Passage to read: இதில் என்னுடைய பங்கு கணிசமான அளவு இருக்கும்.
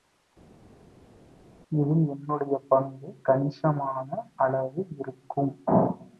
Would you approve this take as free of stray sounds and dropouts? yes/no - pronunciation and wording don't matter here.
yes